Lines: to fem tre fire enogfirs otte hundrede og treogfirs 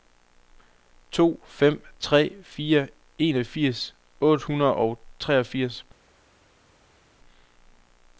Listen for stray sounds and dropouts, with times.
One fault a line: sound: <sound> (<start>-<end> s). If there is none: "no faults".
no faults